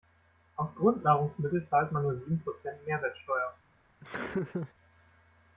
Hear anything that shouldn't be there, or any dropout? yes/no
yes